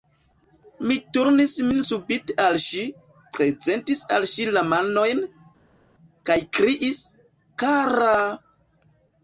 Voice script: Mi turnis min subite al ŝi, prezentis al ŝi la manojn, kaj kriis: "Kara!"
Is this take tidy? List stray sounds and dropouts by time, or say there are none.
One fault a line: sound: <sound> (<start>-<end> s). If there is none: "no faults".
no faults